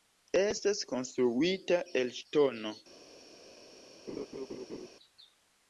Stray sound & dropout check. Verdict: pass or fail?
fail